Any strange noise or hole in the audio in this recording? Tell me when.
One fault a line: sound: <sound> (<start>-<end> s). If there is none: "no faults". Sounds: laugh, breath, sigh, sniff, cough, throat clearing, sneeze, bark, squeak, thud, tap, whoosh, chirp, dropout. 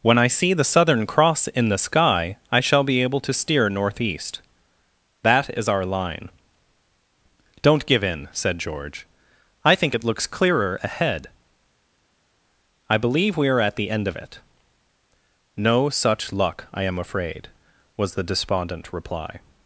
no faults